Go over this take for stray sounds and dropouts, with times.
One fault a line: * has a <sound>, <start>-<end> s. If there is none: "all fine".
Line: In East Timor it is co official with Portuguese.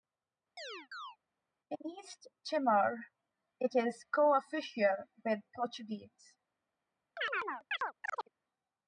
* has a chirp, 0.6-1.2 s
* has a chirp, 7.2-8.3 s